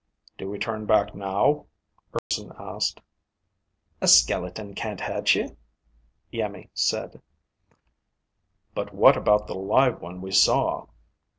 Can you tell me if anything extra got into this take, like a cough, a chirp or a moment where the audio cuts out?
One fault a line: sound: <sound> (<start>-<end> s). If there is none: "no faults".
sound: dropout (2.2-2.3 s)